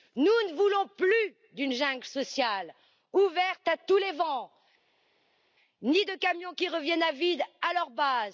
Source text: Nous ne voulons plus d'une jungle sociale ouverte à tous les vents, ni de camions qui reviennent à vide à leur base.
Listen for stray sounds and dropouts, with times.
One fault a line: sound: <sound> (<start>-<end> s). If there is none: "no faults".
no faults